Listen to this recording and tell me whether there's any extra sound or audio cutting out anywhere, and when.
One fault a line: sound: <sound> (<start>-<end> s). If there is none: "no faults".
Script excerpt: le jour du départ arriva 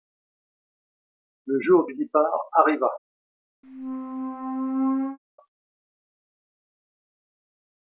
sound: squeak (3.6-5.2 s)